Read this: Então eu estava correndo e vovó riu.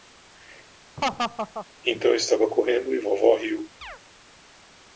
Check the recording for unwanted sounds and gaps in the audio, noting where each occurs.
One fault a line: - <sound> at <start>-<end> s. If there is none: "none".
- laugh at 1.0-1.7 s
- chirp at 3.8-4.0 s